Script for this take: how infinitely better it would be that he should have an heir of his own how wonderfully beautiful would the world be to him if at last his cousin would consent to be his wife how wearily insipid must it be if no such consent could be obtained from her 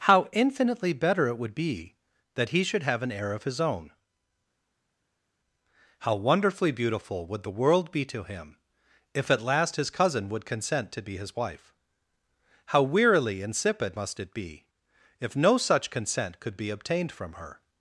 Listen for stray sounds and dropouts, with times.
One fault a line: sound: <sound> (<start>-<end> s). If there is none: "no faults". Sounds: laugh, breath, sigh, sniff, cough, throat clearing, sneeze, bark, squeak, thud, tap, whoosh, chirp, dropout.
no faults